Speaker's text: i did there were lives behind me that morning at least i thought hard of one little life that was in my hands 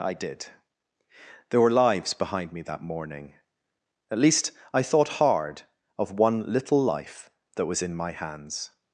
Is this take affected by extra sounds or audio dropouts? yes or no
no